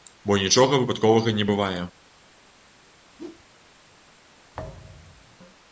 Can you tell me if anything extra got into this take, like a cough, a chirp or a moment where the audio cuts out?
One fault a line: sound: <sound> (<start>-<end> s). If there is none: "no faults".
sound: whoosh (3.2-3.4 s)
sound: thud (4.5-5.4 s)